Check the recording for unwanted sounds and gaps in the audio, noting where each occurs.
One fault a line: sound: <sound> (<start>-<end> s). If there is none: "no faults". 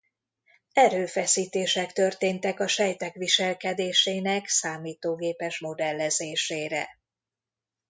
no faults